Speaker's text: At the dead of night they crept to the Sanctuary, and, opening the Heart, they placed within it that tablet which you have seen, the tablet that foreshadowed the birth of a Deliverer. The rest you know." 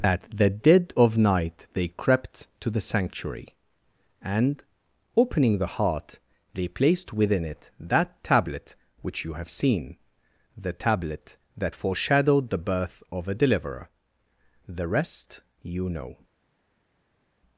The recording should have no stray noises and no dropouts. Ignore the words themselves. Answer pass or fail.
pass